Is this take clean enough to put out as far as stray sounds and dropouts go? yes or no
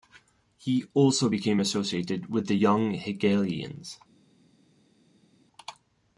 yes